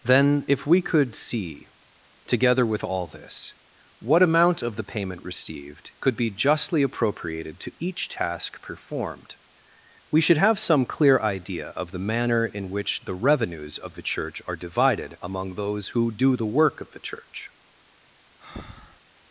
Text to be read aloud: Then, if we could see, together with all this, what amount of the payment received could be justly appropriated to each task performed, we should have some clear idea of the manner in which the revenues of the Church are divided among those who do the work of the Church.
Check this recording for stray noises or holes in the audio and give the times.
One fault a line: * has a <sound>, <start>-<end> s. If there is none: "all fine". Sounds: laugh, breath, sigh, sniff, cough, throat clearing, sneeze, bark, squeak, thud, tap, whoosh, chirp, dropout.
* has a breath, 18.4-19.0 s